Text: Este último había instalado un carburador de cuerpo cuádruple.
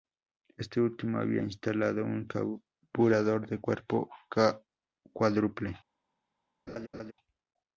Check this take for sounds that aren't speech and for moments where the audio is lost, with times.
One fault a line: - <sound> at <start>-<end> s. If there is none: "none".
- laugh at 6.7-7.1 s